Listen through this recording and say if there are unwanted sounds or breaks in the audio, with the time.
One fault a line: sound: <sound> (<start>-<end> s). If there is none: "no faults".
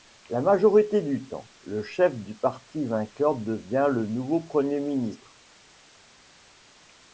no faults